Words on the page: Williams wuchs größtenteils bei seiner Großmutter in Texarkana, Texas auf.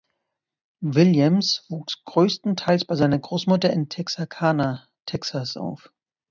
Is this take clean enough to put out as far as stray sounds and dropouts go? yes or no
yes